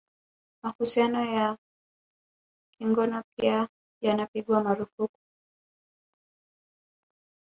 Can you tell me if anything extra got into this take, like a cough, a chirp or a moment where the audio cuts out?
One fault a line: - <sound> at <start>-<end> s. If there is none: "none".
none